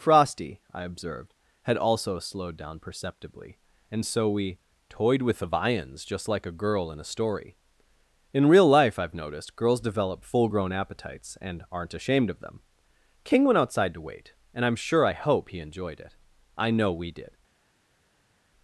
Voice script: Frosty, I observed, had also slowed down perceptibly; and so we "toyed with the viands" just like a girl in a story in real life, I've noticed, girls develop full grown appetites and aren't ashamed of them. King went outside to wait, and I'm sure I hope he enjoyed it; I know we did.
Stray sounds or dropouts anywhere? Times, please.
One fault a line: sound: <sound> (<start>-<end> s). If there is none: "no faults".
no faults